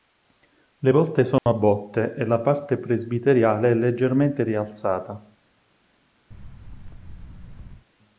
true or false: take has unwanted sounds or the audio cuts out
true